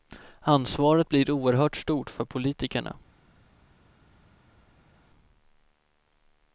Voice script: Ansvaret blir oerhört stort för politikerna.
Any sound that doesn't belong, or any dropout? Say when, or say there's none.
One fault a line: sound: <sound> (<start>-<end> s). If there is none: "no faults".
no faults